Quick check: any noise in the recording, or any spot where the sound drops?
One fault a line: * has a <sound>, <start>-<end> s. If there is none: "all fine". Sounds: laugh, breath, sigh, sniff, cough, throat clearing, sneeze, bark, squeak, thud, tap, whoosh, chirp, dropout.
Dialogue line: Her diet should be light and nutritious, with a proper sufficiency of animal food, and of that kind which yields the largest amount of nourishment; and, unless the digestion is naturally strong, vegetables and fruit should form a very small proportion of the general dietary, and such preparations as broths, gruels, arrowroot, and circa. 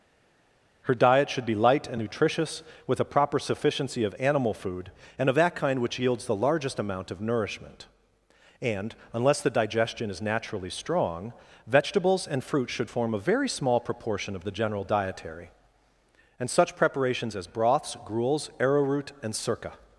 all fine